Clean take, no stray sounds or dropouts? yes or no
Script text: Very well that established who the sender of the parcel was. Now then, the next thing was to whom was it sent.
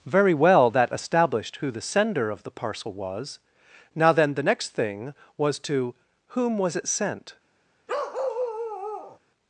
no